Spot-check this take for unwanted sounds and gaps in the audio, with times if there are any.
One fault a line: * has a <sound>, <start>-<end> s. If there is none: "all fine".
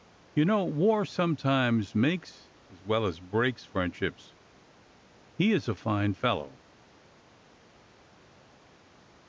all fine